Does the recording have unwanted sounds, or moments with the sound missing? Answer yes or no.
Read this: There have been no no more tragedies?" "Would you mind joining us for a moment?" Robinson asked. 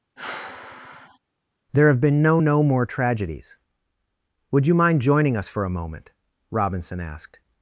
yes